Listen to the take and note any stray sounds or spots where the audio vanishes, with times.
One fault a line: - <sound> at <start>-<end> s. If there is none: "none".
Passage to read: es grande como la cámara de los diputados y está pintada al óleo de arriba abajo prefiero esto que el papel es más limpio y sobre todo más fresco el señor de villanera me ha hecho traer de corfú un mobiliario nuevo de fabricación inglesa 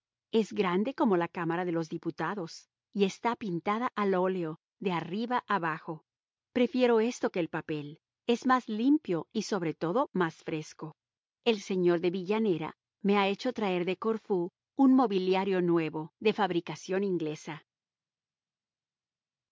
none